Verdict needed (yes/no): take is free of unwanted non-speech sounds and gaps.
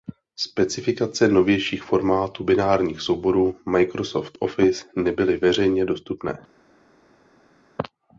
yes